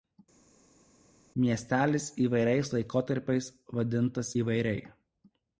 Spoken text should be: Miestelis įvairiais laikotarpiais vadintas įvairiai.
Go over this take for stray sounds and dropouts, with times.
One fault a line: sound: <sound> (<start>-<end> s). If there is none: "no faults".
no faults